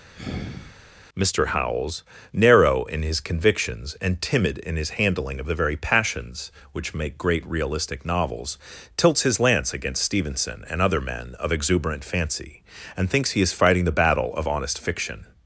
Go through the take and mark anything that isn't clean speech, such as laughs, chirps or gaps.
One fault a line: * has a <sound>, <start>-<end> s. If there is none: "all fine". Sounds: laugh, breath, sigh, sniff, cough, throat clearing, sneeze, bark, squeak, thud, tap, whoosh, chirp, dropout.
* has a sigh, 0.1-0.8 s